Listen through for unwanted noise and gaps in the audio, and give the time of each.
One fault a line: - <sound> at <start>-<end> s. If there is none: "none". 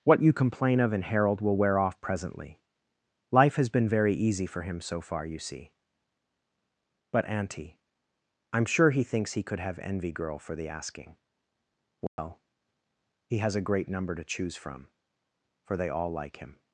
- dropout at 12.1-12.2 s